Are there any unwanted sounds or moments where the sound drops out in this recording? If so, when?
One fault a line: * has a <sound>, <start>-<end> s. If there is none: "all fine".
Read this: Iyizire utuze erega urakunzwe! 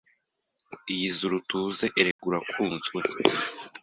* has a dropout, 2.1-2.2 s